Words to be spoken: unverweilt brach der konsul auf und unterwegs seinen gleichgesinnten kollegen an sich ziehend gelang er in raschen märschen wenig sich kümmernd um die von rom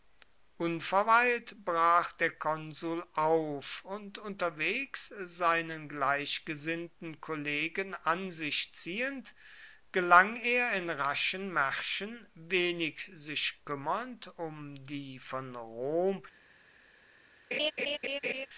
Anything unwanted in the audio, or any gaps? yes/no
yes